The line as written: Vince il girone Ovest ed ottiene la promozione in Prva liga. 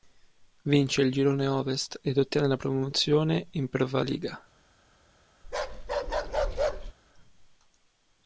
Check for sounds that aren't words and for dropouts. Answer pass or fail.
fail